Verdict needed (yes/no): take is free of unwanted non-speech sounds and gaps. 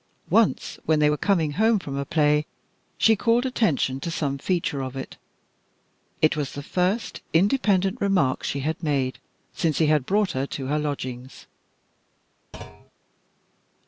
no